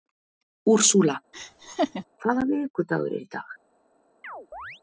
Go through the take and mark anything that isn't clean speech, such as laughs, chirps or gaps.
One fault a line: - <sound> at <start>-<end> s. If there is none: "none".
- laugh at 1.3-2.0 s
- chirp at 4.2-4.8 s